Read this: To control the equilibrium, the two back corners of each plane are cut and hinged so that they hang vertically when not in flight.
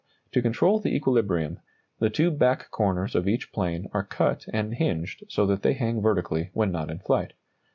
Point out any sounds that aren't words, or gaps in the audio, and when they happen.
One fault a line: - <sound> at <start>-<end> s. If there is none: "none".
none